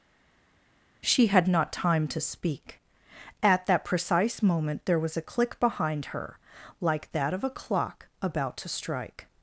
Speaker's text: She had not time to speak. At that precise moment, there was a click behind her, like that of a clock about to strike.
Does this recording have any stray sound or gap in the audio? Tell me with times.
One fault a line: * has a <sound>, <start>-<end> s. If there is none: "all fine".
all fine